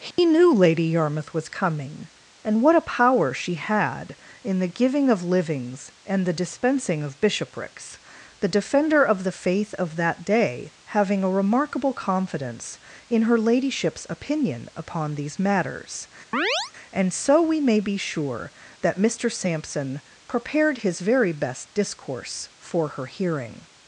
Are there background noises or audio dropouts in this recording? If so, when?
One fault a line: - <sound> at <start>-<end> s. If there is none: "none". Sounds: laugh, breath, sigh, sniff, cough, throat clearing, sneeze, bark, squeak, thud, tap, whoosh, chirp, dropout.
- dropout at 0.1-0.2 s
- chirp at 16.3-16.7 s